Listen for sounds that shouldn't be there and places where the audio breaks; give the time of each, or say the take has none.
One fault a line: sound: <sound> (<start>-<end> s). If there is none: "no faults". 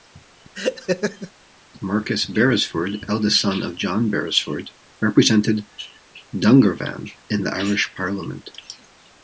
sound: laugh (0.5-1.3 s)